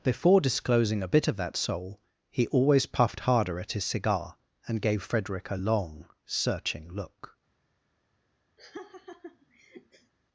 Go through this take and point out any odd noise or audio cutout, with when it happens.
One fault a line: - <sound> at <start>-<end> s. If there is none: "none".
- laugh at 8.6-10.1 s